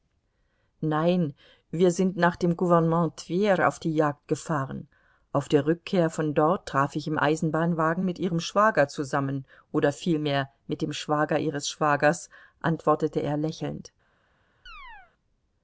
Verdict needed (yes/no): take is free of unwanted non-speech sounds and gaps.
no